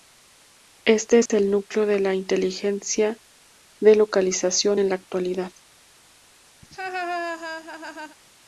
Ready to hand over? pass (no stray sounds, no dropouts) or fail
fail